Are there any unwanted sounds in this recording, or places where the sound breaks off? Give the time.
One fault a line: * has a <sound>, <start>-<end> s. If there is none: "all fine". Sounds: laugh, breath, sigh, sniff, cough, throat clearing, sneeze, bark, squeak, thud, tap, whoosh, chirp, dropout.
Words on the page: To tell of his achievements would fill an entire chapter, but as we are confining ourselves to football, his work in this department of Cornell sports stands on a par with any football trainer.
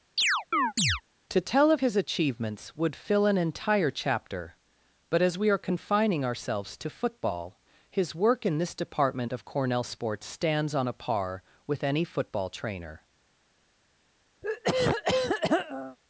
* has a chirp, 0.2-1.0 s
* has a throat clearing, 14.4-16.0 s